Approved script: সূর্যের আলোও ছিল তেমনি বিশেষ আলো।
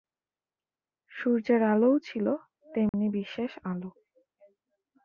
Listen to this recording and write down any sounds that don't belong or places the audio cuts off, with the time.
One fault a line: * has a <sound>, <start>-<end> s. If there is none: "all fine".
* has a dropout, 2.9-2.9 s